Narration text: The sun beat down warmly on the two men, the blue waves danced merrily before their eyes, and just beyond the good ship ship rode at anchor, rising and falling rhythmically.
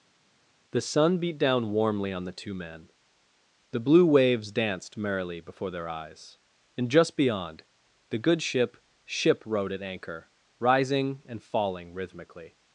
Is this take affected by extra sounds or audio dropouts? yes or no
no